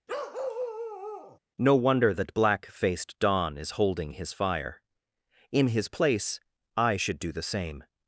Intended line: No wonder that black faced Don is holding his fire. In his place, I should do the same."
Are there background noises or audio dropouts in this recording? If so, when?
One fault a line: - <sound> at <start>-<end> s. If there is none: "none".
- bark at 0.1-1.4 s